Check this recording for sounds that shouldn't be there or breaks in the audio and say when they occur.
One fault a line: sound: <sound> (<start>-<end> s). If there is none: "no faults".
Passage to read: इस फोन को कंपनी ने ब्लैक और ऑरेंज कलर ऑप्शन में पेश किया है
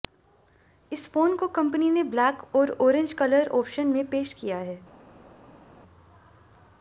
no faults